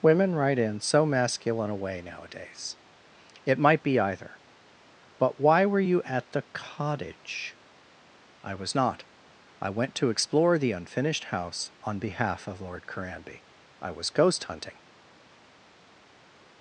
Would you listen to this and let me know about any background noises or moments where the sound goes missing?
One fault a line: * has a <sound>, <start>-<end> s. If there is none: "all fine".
all fine